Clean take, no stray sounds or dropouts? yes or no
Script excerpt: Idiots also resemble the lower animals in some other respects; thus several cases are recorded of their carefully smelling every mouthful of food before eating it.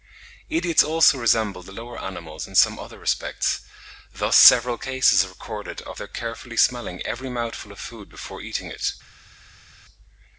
yes